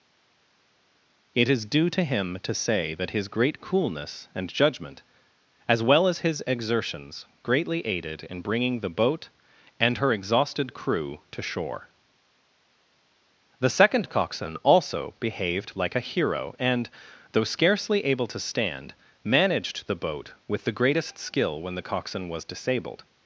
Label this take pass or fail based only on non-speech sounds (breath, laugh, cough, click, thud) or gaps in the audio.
pass